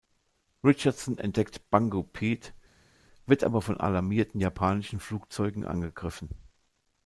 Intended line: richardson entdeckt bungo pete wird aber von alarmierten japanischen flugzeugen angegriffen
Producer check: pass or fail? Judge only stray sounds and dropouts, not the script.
pass